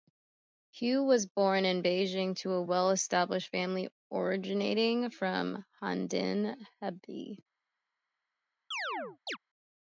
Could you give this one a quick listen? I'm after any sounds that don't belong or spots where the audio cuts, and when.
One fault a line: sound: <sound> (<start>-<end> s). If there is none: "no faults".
sound: chirp (8.7-9.4 s)